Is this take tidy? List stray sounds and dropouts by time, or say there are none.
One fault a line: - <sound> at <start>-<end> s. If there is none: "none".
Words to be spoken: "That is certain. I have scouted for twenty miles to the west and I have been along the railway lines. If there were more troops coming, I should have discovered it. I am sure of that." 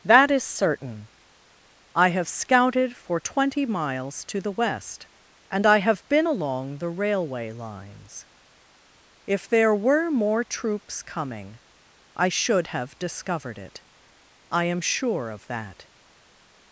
none